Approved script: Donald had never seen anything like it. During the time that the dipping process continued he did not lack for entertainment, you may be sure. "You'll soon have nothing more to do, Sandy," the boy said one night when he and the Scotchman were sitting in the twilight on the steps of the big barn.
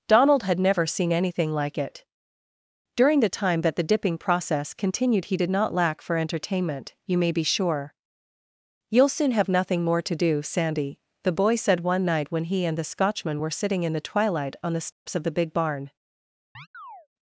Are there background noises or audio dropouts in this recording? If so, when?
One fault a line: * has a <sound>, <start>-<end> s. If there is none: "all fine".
* has a dropout, 14.9-15.1 s
* has a chirp, 16.5-17.1 s